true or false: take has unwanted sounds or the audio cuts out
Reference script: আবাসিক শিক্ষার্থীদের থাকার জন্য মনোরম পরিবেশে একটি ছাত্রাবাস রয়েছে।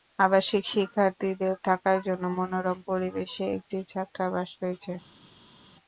false